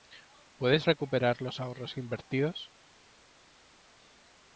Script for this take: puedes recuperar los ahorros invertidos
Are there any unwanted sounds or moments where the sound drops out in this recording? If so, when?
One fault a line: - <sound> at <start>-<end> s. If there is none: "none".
none